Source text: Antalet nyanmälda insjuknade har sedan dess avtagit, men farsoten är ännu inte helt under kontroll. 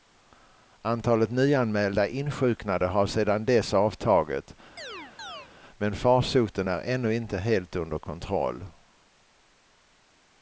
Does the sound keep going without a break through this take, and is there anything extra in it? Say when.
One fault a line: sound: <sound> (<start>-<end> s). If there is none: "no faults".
sound: chirp (4.8-5.5 s)